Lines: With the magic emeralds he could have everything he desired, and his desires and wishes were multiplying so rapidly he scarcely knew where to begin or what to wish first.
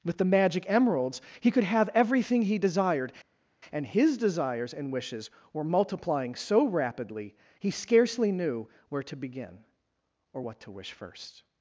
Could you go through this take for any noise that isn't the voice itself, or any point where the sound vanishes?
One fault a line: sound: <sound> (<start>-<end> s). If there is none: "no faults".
no faults